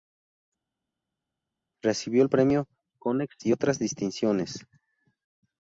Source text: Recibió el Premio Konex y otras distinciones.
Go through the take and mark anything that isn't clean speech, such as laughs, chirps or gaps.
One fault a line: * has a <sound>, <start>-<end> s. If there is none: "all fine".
all fine